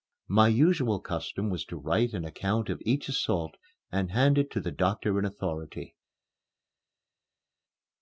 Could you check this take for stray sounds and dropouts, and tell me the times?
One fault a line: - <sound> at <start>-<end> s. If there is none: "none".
none